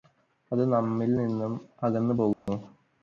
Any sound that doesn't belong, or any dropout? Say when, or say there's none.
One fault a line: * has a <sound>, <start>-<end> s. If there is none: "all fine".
* has a dropout, 2.3-2.5 s